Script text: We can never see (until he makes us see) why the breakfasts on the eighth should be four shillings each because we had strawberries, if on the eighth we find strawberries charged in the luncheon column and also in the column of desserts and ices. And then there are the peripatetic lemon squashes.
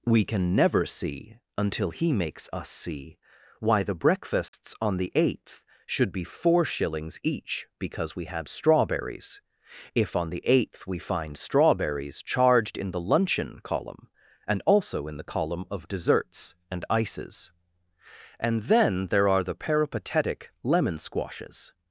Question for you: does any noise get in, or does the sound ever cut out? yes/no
yes